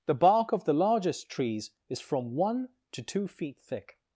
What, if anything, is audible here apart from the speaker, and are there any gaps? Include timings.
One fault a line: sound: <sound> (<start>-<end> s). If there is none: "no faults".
no faults